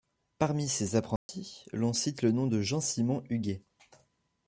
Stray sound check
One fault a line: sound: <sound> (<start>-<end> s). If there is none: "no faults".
sound: dropout (1.2-1.3 s)